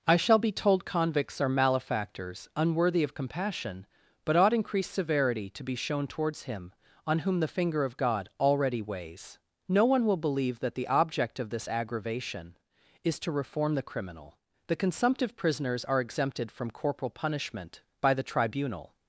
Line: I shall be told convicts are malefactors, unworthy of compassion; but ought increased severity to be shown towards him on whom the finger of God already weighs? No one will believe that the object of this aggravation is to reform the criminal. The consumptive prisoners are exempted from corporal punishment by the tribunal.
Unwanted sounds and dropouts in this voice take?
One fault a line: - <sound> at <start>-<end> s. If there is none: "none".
none